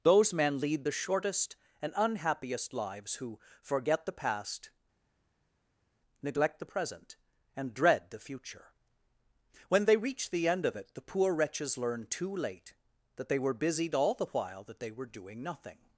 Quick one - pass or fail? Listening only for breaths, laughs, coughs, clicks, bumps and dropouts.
pass